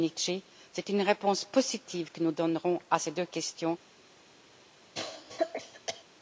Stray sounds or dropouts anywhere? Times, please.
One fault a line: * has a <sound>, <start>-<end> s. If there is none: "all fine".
* has a cough, 4.9-6.0 s